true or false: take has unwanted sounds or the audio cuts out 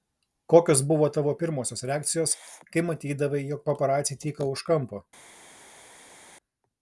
false